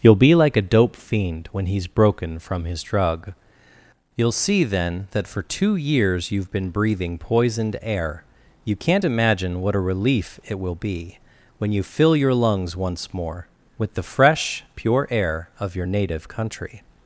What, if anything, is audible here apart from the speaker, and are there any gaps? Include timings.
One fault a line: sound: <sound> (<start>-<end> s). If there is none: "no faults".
no faults